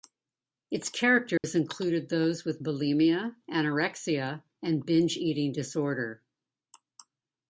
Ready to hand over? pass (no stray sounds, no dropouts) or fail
fail